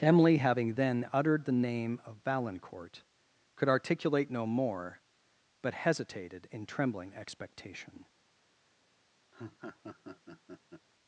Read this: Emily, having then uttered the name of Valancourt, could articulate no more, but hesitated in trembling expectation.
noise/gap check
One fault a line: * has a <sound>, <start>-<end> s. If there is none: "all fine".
* has a laugh, 9.3-10.9 s